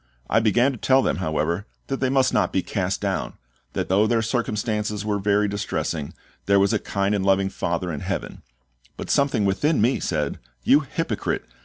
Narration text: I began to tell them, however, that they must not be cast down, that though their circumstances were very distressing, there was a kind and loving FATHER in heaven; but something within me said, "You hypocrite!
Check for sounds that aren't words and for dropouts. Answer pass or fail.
pass